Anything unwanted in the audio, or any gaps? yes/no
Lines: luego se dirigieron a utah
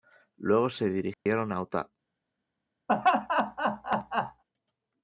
yes